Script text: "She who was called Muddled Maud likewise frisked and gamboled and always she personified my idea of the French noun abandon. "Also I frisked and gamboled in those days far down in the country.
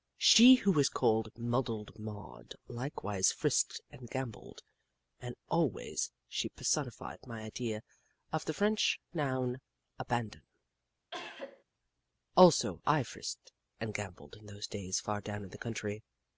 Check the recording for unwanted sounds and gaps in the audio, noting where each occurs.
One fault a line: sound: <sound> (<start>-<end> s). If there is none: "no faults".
sound: cough (11.1-11.6 s)